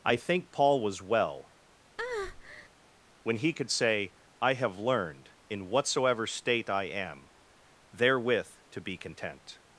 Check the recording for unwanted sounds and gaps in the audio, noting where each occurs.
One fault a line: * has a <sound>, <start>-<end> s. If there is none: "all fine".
* has a breath, 2.0-2.7 s